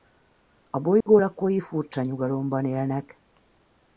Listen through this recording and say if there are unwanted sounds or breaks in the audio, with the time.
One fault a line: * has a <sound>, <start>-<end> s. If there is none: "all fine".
* has a dropout, 1.0-1.1 s